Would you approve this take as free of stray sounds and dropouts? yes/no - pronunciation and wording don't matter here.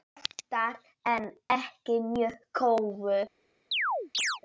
no